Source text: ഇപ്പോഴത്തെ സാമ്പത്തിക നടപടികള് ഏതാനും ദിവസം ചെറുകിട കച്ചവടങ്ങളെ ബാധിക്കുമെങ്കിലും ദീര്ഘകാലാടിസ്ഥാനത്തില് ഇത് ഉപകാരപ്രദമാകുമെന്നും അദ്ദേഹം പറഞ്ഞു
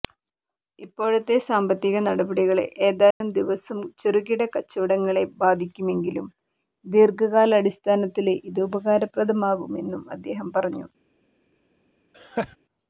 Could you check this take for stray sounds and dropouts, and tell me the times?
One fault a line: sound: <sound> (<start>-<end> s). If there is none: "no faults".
sound: dropout (3.1-3.2 s)
sound: laugh (12.1-12.6 s)